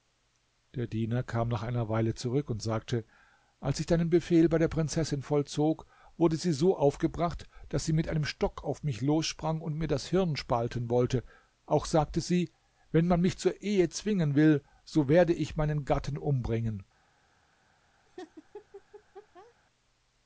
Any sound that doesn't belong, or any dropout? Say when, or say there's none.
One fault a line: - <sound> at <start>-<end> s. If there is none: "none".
- laugh at 18.1-19.5 s